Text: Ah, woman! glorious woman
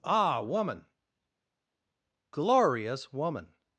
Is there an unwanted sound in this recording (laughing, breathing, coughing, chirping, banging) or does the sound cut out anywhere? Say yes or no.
no